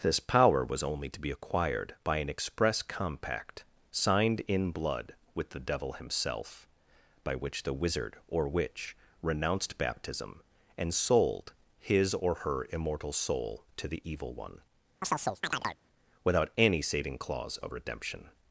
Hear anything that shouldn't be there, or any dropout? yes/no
yes